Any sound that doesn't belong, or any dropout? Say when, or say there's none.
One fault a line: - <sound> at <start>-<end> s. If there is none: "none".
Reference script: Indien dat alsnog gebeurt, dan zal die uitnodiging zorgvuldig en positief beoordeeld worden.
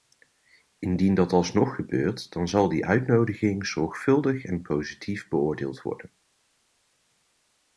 none